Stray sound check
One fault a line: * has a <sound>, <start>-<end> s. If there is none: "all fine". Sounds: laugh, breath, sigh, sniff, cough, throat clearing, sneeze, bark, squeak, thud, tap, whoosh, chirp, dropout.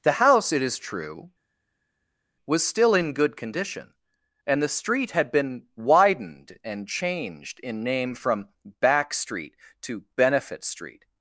all fine